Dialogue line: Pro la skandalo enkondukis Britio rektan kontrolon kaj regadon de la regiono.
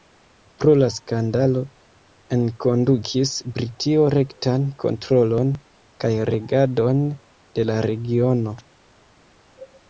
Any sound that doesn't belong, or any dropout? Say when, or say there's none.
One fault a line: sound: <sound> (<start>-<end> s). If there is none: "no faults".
no faults